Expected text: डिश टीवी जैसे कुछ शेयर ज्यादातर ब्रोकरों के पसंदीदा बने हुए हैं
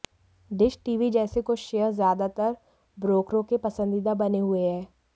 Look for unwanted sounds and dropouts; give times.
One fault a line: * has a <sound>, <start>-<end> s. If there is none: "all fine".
all fine